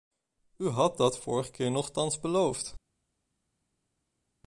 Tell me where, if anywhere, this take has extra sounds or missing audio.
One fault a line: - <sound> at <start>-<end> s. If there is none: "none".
none